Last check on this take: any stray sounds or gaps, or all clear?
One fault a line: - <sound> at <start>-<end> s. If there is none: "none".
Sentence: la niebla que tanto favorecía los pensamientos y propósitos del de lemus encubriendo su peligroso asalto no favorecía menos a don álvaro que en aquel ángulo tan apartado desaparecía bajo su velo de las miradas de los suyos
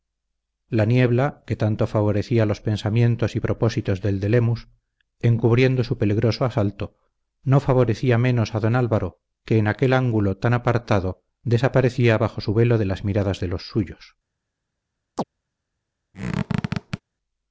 - chirp at 15.2-15.2 s
- squeak at 16.1-17.0 s